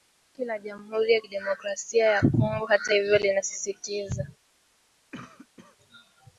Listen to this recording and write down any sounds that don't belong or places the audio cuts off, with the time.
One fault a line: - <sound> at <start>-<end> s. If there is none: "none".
- cough at 5.1-5.8 s